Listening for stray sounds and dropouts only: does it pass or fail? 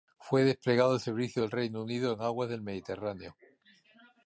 pass